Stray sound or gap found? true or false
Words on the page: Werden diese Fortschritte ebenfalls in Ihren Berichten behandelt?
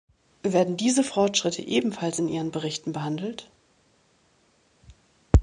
false